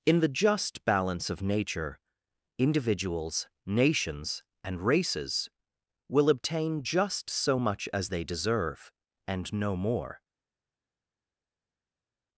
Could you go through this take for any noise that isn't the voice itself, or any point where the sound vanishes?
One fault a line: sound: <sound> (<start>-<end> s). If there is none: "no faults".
no faults